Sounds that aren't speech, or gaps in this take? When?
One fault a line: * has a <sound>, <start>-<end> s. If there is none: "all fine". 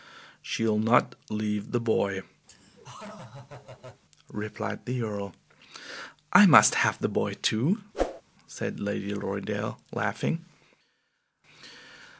* has a laugh, 2.5-4.0 s
* has a whoosh, 7.9-8.2 s